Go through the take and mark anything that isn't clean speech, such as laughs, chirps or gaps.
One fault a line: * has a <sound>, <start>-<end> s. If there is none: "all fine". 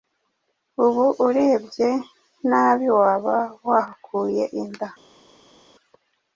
all fine